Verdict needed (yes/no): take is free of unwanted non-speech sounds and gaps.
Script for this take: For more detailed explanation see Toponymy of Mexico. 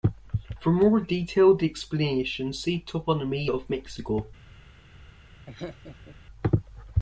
no